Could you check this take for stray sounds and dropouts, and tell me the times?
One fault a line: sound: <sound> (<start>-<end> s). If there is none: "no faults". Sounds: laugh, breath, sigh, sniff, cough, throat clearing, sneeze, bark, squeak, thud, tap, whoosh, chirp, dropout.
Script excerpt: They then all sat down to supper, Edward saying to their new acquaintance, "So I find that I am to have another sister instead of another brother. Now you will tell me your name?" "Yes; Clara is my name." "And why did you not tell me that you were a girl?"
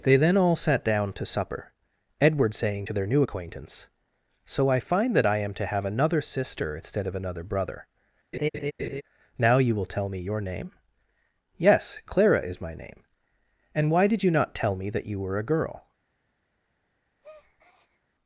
sound: laugh (8.3-9.0 s)
sound: breath (17.2-18.0 s)